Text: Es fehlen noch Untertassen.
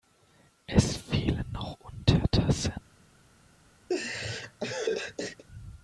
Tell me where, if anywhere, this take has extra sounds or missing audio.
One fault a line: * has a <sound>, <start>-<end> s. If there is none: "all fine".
* has a laugh, 3.9-5.4 s